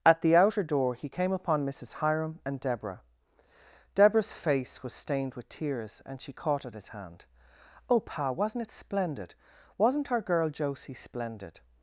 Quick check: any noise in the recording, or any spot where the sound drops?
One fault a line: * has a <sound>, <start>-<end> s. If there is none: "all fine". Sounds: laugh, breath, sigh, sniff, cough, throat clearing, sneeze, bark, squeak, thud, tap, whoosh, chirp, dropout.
all fine